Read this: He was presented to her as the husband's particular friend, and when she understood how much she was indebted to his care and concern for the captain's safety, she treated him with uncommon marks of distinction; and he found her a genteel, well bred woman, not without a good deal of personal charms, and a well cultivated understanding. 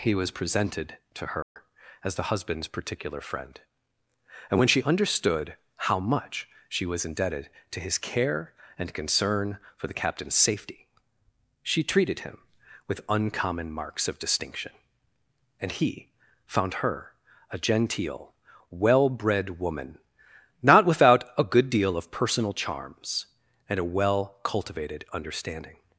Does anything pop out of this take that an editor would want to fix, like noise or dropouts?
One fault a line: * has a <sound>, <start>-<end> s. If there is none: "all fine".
* has a dropout, 1.4-1.6 s